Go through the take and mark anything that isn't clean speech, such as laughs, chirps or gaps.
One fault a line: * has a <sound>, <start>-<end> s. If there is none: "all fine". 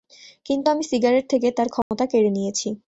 * has a dropout, 1.8-1.9 s